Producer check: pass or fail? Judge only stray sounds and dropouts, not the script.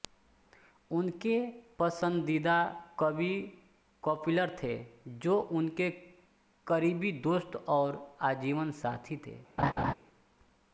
fail